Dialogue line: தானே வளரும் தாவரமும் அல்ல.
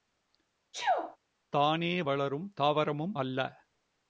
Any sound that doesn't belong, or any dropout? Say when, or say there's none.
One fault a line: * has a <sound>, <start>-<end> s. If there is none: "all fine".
* has a sneeze, 0.7-1.2 s